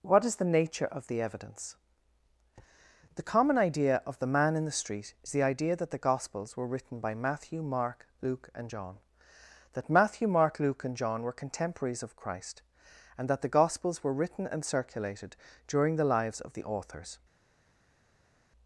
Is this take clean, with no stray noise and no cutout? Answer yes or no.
yes